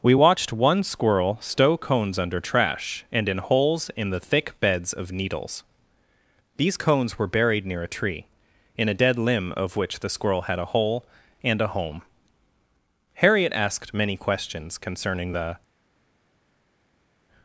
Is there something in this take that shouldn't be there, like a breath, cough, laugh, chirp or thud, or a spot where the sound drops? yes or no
no